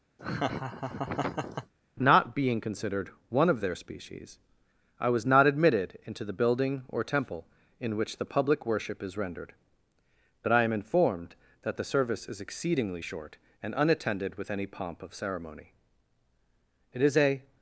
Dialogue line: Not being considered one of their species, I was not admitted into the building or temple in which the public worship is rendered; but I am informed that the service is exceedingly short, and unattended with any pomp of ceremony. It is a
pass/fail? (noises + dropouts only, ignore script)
fail